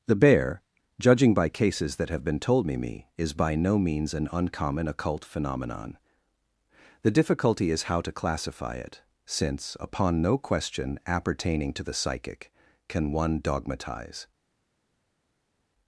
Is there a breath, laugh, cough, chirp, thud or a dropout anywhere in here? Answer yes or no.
no